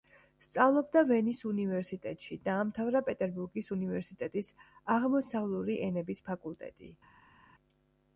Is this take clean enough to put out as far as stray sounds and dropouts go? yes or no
yes